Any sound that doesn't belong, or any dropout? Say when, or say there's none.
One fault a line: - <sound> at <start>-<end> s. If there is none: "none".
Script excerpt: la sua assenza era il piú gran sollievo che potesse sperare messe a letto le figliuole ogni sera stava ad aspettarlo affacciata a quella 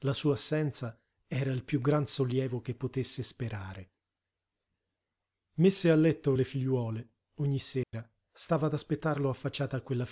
- dropout at 7.8-7.9 s